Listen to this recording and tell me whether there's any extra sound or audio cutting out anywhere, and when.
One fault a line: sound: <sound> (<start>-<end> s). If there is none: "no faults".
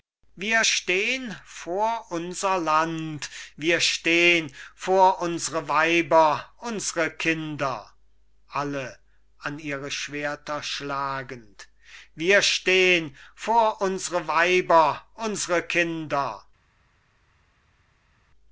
no faults